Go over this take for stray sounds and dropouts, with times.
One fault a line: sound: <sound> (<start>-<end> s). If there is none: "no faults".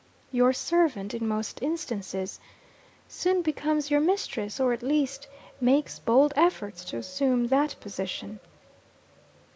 no faults